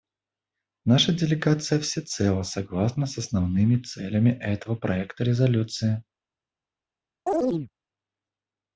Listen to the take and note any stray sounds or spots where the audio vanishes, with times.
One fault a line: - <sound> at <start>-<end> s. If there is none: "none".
- chirp at 7.3-7.7 s